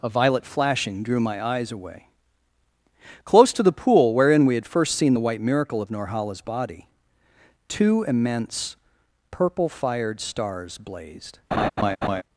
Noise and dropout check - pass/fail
fail